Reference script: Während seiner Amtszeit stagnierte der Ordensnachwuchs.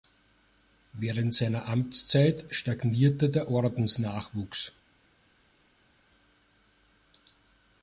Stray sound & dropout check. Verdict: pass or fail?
pass